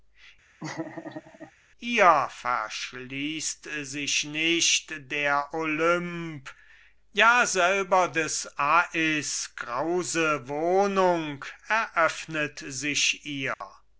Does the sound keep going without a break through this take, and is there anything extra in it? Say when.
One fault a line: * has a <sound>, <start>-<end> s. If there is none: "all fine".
* has a laugh, 0.6-1.5 s
* has a dropout, 13.5-13.6 s